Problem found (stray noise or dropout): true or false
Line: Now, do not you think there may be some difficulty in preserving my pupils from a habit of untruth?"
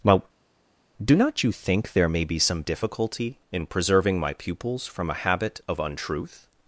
false